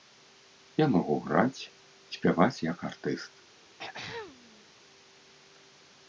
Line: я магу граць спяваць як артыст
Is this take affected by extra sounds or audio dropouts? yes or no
yes